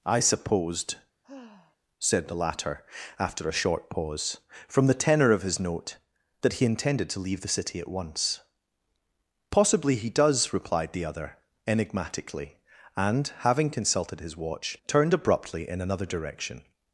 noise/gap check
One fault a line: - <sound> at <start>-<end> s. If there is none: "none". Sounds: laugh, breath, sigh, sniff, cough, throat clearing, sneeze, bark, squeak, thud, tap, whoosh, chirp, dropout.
- sigh at 1.2-1.8 s